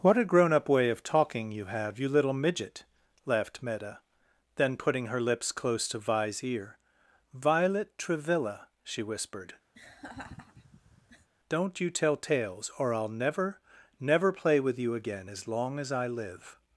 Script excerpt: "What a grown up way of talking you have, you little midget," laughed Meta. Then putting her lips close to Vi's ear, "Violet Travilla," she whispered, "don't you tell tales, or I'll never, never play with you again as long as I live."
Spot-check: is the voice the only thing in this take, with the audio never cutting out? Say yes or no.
no